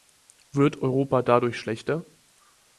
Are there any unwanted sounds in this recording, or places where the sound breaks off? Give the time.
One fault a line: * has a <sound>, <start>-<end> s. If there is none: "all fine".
all fine